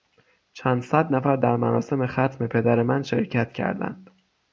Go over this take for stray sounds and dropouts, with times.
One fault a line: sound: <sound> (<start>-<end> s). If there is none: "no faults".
no faults